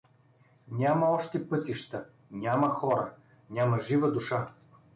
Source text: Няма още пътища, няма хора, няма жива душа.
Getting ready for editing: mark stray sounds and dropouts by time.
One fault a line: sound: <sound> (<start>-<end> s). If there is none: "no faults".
no faults